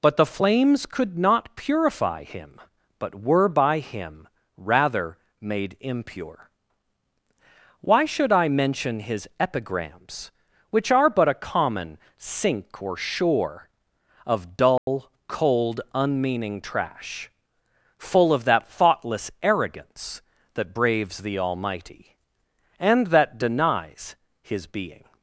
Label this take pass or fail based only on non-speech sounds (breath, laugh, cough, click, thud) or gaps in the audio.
fail